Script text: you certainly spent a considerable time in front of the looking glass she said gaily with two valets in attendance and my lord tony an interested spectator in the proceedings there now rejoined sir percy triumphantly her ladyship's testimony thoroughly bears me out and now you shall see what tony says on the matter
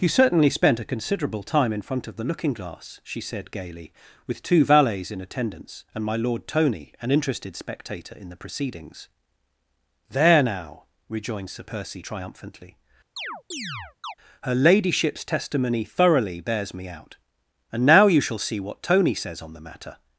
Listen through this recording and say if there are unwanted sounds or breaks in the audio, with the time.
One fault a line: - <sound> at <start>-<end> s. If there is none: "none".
- chirp at 13.2-14.1 s